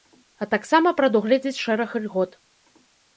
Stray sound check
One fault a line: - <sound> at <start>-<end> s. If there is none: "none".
none